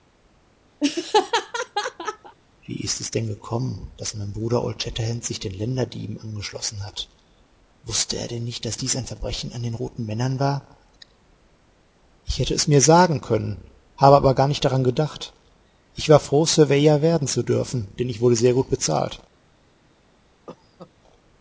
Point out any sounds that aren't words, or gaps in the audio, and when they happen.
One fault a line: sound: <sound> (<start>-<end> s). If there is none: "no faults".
sound: laugh (0.8-2.4 s)
sound: cough (20.5-20.9 s)